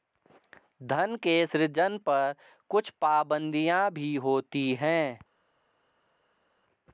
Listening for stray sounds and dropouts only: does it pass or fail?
pass